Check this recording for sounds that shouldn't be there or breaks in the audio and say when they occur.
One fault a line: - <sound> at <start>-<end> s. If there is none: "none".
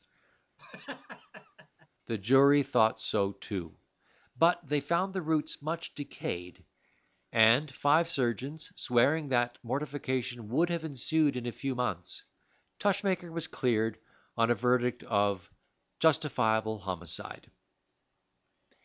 - laugh at 0.6-1.9 s